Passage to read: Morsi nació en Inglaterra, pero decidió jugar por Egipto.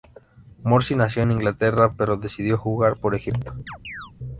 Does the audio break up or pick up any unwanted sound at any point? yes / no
yes